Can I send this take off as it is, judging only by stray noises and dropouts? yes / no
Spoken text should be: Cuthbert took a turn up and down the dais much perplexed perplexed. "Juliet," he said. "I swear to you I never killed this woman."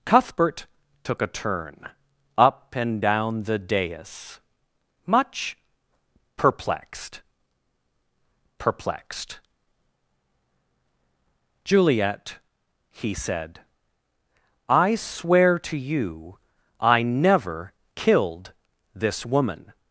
yes